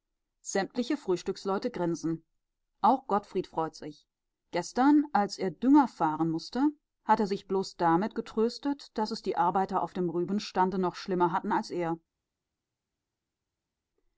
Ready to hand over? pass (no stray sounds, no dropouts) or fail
pass